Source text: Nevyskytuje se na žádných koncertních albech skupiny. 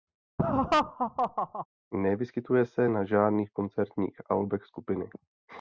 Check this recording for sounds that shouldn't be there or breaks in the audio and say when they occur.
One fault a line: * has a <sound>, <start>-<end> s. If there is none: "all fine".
* has a laugh, 0.4-1.7 s